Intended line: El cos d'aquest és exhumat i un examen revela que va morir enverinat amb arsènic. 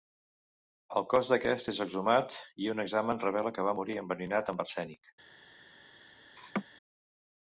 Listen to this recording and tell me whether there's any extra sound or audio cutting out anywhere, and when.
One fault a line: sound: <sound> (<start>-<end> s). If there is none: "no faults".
sound: laugh (6.4-6.6 s)